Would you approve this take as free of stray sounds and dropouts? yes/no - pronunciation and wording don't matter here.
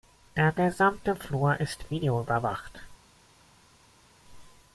yes